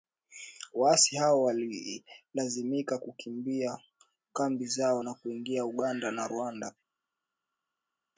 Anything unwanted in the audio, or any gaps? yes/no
no